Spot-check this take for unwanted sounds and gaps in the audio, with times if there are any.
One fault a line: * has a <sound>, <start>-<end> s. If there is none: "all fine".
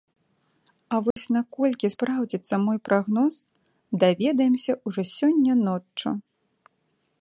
* has a dropout, 1.1-1.2 s